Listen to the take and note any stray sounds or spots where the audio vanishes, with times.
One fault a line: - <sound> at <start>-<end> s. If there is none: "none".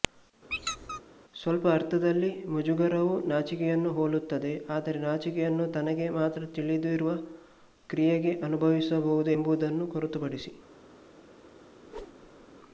- squeak at 0.5-1.0 s
- whoosh at 11.8-12.5 s